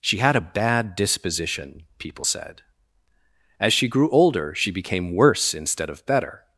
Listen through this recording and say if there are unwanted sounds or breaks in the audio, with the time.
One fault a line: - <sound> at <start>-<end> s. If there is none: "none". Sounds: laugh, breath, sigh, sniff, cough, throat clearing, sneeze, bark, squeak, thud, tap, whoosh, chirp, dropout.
none